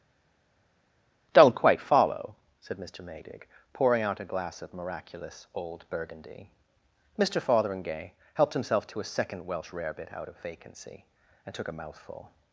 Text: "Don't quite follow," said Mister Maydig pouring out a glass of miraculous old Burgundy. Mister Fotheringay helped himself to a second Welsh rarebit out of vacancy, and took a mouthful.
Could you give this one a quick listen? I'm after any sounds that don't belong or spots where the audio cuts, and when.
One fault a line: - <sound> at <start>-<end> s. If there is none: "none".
none